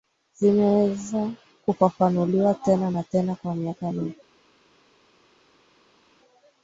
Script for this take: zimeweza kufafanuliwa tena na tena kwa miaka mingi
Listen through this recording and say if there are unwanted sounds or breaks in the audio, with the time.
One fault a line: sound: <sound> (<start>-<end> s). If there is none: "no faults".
no faults